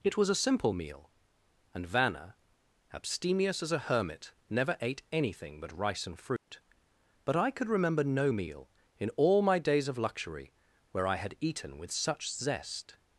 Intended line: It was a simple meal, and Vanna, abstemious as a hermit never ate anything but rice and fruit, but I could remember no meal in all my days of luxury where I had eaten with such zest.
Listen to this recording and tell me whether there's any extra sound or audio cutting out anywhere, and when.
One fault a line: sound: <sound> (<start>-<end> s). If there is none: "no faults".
sound: dropout (6.4-6.5 s)